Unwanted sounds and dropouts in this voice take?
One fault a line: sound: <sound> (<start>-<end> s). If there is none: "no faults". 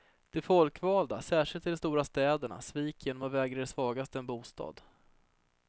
no faults